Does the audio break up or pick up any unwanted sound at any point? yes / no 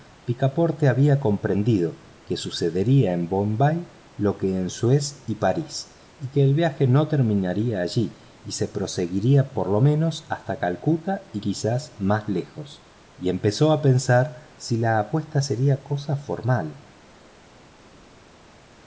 no